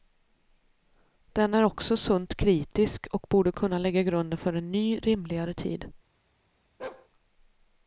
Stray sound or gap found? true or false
true